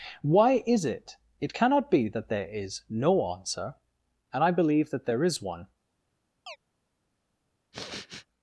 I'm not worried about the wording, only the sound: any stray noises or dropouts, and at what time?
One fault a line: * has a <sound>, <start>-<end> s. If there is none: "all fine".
* has a chirp, 6.5-6.6 s
* has a sniff, 7.7-8.3 s